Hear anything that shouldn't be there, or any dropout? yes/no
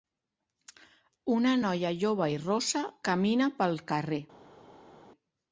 no